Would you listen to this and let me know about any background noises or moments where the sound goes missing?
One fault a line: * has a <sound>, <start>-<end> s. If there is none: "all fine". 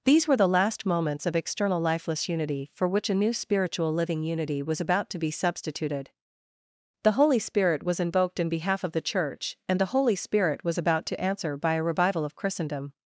all fine